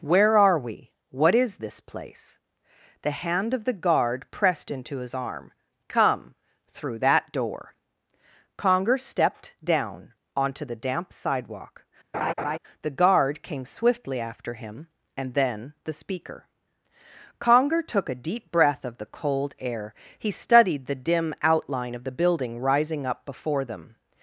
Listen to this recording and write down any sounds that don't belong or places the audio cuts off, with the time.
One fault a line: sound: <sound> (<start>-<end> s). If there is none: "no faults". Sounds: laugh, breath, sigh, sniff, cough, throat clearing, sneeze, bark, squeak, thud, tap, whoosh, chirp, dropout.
sound: laugh (12.1-12.6 s)